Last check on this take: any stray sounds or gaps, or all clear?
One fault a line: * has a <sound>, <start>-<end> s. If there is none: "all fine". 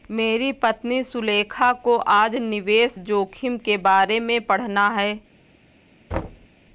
* has a thud, 6.1-6.5 s